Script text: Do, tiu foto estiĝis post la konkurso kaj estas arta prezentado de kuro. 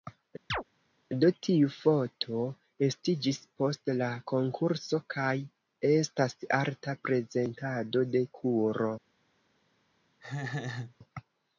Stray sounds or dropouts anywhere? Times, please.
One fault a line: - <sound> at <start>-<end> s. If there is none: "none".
- chirp at 0.5-0.6 s
- laugh at 10.2-11.0 s